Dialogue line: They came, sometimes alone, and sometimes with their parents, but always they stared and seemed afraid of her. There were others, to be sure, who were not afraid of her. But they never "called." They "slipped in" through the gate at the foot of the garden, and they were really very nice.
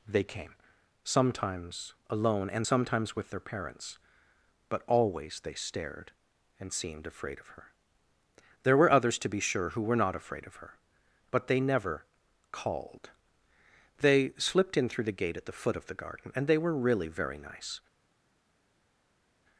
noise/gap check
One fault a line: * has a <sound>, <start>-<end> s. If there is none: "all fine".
all fine